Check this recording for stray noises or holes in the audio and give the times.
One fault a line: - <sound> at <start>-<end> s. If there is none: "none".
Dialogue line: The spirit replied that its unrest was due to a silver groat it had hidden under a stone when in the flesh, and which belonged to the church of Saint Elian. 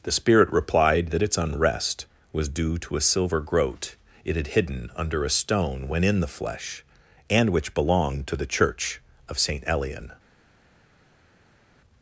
none